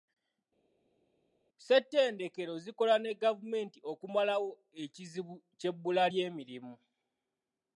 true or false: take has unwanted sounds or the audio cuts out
false